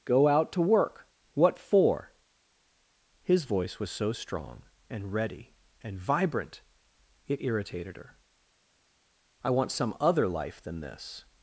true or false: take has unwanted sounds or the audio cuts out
false